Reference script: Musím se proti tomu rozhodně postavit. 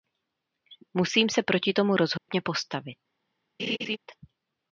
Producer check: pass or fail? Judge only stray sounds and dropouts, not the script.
fail